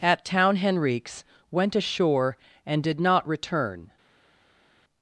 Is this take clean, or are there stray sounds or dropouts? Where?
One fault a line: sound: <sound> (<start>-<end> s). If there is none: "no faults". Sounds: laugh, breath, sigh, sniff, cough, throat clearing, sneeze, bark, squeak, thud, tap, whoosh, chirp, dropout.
no faults